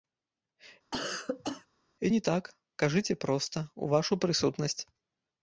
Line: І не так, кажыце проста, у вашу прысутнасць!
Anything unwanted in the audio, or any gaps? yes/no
yes